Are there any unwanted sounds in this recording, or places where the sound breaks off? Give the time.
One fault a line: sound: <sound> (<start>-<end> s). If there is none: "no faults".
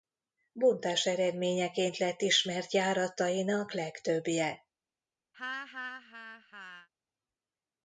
sound: laugh (5.3-6.9 s)